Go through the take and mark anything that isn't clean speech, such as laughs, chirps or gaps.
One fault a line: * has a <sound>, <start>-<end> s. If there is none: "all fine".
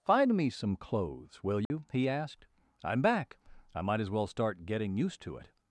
* has a dropout, 1.7-1.7 s